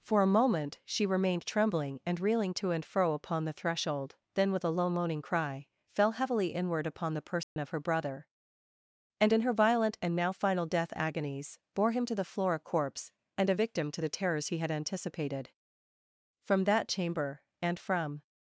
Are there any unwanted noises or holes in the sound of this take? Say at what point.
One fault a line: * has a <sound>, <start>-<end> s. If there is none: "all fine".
* has a dropout, 7.4-7.6 s